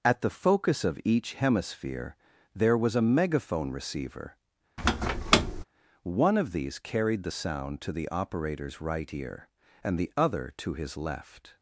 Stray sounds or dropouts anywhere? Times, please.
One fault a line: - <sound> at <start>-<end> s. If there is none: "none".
- squeak at 4.8-5.6 s